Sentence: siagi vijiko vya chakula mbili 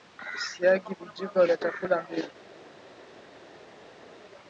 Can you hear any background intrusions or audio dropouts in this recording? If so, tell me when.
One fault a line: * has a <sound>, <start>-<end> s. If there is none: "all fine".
all fine